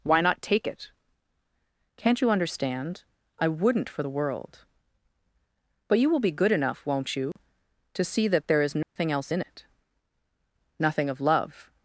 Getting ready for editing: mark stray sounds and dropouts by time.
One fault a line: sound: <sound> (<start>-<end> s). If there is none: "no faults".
sound: dropout (7.3-7.4 s)
sound: dropout (8.8-9.0 s)